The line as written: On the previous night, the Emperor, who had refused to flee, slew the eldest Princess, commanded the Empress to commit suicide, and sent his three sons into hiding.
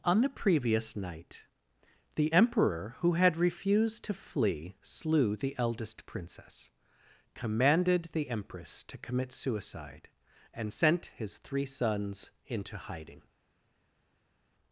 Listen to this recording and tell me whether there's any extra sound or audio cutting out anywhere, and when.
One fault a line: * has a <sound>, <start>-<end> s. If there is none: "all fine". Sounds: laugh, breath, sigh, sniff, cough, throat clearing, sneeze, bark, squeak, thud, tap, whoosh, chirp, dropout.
all fine